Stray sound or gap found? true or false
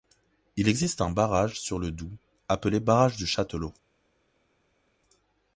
false